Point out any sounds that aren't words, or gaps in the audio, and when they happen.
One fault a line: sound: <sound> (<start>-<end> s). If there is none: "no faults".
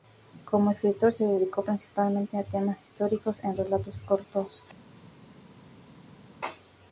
no faults